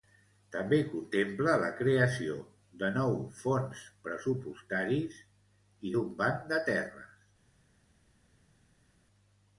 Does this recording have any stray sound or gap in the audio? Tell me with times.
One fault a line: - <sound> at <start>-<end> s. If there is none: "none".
none